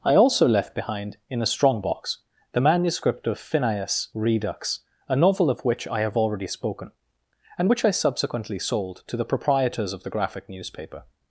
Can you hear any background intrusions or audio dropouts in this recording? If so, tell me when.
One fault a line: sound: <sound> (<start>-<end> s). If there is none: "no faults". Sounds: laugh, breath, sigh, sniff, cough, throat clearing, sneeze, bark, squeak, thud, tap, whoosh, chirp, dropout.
no faults